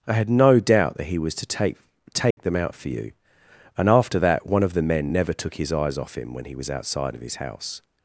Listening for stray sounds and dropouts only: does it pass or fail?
fail